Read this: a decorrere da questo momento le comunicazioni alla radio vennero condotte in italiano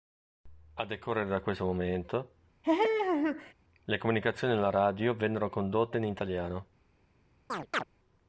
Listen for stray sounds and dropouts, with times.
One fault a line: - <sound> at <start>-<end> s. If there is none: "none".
- laugh at 2.6-3.5 s
- chirp at 7.5-7.8 s